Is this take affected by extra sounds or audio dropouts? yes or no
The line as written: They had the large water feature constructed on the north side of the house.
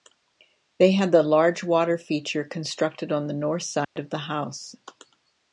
yes